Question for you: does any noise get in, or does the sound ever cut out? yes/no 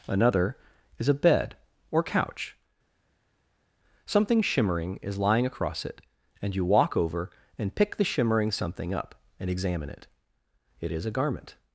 no